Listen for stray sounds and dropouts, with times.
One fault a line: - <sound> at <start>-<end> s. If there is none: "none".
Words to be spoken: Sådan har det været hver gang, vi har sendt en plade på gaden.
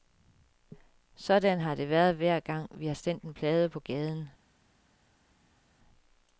none